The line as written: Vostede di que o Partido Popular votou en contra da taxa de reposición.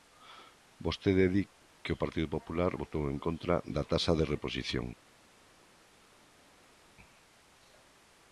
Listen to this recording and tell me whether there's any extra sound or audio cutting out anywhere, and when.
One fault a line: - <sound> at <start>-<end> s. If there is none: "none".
none